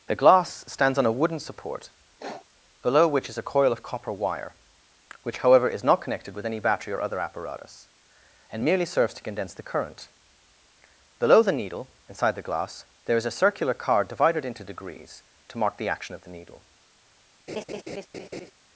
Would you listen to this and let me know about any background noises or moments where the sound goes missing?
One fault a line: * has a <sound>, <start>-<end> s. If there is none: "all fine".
* has a sniff, 2.2-2.5 s
* has a laugh, 17.5-18.5 s